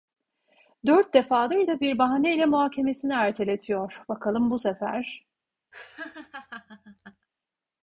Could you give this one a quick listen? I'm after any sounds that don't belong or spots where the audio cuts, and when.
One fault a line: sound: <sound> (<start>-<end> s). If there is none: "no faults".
sound: laugh (5.7-7.3 s)